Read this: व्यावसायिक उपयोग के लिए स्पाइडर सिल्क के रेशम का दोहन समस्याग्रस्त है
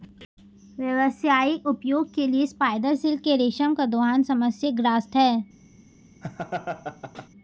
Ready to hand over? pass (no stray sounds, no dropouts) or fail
fail